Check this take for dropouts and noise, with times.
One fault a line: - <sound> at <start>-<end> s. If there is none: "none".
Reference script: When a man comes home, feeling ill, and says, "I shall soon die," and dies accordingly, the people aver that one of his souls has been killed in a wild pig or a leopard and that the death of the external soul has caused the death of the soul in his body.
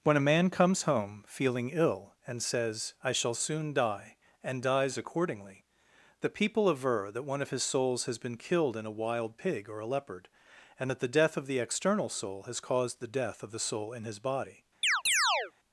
- chirp at 14.8-15.5 s